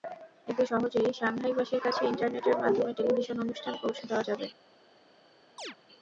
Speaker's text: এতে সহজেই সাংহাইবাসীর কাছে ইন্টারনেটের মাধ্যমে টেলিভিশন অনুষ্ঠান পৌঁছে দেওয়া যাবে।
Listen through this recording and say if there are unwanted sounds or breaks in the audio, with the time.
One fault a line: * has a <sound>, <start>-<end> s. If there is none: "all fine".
* has a chirp, 5.6-5.8 s